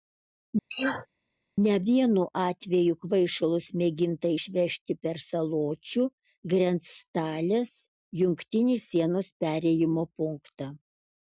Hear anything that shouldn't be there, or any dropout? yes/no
yes